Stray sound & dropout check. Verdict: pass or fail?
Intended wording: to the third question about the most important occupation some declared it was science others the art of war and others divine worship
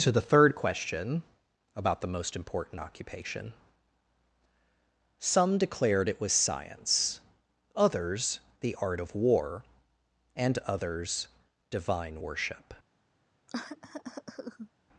fail